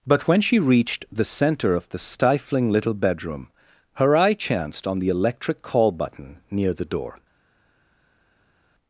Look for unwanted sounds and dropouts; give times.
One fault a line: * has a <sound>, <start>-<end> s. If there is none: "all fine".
all fine